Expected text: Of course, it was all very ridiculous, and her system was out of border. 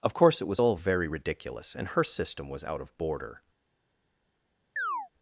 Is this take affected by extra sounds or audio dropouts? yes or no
yes